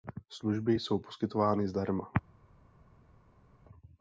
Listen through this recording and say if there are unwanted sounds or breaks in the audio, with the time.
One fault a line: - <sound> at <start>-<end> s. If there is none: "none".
none